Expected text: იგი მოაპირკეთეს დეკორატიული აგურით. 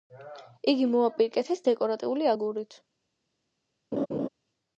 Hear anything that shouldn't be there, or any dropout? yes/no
yes